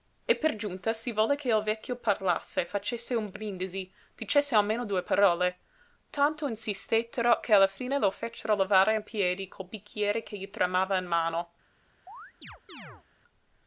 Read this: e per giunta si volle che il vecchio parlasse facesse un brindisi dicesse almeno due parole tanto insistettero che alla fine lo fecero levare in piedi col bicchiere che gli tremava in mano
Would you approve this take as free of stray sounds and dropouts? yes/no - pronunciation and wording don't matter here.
no